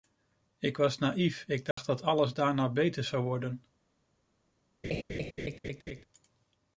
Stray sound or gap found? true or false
true